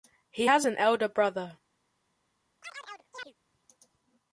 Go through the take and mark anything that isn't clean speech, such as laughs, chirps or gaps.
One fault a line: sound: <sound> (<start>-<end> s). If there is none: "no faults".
sound: chirp (2.6-3.3 s)